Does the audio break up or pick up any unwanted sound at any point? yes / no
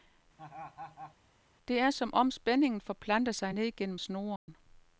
yes